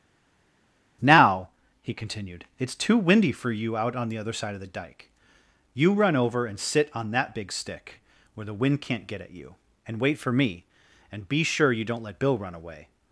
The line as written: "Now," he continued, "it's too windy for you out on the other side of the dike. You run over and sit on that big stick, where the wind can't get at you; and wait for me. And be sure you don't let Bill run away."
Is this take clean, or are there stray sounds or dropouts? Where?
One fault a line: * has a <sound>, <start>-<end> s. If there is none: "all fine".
all fine